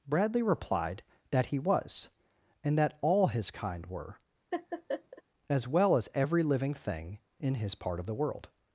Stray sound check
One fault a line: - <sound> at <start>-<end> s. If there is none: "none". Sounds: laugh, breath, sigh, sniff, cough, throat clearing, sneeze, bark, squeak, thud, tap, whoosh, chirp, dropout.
- laugh at 4.5-5.2 s